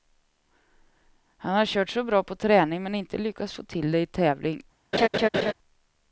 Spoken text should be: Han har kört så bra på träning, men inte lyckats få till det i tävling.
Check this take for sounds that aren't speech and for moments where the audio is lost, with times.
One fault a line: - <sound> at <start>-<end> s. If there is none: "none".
- laugh at 4.9-5.5 s